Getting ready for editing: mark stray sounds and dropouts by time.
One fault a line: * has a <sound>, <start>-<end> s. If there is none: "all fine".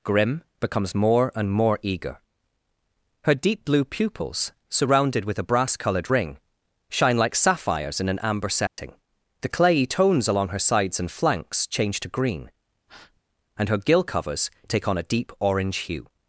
* has a dropout, 8.7-8.8 s
* has a breath, 12.9-13.2 s